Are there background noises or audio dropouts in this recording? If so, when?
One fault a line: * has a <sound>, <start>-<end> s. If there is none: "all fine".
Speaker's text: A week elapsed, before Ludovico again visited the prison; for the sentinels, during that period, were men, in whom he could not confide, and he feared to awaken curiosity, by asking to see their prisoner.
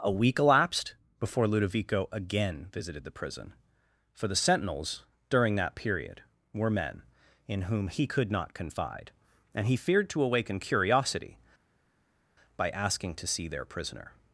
all fine